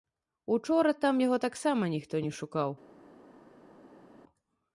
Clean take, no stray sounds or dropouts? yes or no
yes